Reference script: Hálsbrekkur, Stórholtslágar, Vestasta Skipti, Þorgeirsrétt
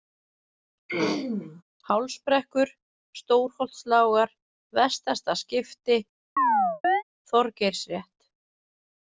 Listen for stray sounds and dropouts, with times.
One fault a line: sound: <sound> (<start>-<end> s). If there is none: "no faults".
sound: throat clearing (0.9-1.6 s)
sound: chirp (6.4-7.0 s)